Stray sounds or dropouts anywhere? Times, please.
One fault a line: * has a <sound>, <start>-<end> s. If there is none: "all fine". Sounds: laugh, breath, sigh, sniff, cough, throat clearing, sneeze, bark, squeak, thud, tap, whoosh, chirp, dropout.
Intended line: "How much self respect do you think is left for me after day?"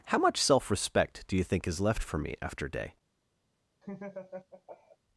* has a laugh, 3.8-5.0 s